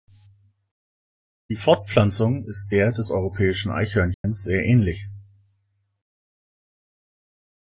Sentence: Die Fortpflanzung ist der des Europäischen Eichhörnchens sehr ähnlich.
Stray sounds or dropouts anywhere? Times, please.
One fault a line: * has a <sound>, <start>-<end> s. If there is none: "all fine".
* has a dropout, 4.1-4.2 s